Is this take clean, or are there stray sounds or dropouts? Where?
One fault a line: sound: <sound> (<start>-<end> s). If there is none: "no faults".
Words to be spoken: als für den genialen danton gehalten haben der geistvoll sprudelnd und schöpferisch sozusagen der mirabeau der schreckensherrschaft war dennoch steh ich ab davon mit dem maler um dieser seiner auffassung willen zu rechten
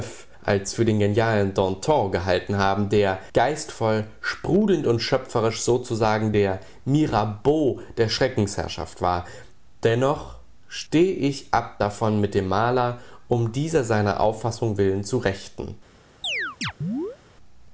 sound: chirp (16.2-17.2 s)